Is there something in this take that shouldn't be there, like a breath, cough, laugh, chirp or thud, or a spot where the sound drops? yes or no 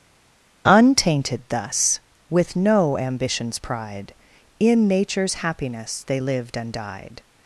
no